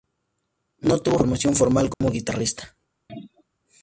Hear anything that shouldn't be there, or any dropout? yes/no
yes